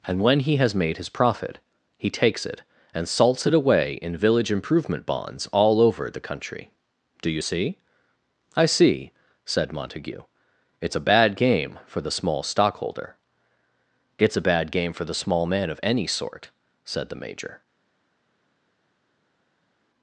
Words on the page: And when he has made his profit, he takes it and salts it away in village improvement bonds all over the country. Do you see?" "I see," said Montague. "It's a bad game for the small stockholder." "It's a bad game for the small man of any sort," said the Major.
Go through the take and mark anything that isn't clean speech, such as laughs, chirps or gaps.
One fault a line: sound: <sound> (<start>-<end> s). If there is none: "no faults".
no faults